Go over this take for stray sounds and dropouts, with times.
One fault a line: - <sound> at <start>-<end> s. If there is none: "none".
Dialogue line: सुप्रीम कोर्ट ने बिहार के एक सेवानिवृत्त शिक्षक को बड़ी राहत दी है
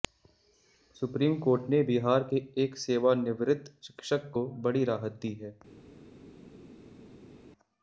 none